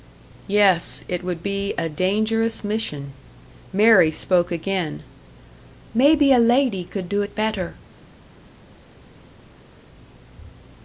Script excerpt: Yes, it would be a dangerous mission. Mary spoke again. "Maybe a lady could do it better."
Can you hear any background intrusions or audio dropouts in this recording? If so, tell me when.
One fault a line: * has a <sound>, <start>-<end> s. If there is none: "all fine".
all fine